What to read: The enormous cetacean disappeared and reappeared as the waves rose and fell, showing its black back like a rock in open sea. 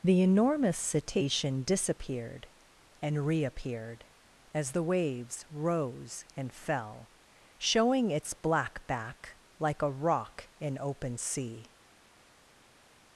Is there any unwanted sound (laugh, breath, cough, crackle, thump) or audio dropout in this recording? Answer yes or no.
no